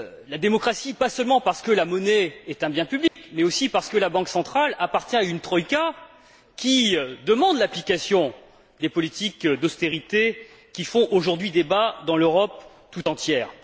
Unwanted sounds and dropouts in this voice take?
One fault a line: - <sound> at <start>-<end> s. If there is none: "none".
- dropout at 3.1-3.2 s